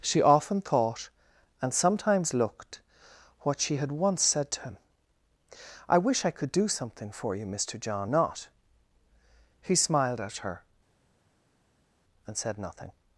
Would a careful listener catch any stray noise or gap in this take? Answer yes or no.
no